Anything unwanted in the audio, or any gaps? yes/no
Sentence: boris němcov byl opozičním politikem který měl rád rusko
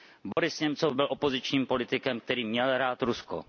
yes